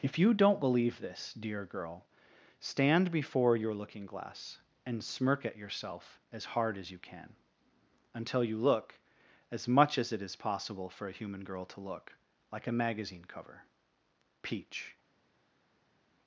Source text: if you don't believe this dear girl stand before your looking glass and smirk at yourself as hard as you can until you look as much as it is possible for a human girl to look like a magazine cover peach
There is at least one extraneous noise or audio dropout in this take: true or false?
false